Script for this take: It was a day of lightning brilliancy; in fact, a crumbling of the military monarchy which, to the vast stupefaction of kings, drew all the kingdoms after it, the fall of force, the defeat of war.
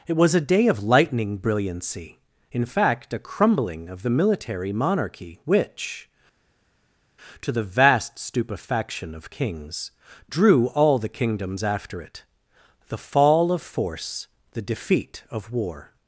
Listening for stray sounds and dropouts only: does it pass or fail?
pass